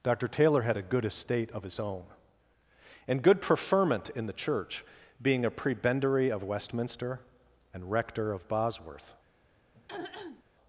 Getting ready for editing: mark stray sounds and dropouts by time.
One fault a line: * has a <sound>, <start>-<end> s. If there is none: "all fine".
* has a throat clearing, 9.7-10.4 s